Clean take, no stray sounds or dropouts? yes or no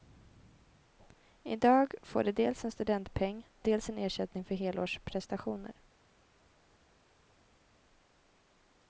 yes